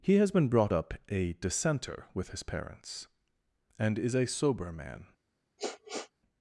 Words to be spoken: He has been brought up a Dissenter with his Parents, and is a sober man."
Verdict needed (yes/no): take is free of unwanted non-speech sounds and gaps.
no